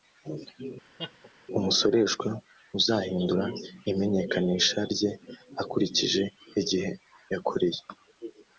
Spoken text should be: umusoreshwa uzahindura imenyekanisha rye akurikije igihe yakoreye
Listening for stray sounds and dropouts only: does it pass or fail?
fail